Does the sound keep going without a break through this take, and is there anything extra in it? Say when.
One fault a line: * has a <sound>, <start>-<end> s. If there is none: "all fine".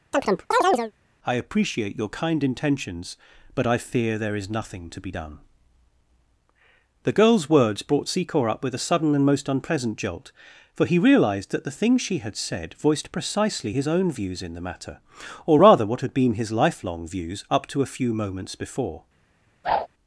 * has a chirp, 0.1-0.9 s
* has a whoosh, 19.6-19.9 s